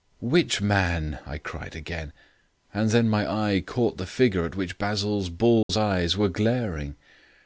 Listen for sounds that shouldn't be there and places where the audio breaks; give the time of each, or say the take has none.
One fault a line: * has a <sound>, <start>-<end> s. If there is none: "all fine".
* has a dropout, 5.6-5.7 s